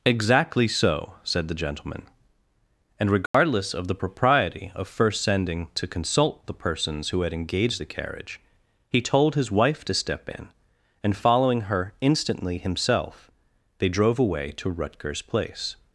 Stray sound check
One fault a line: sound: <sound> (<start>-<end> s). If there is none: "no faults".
sound: dropout (3.3-3.3 s)